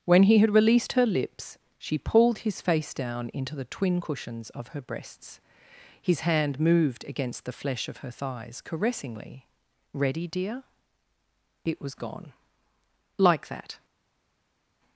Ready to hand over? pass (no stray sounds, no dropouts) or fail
pass